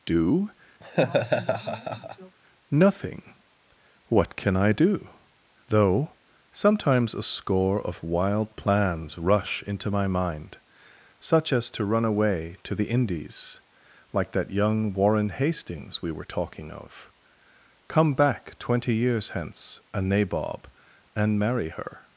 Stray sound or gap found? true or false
true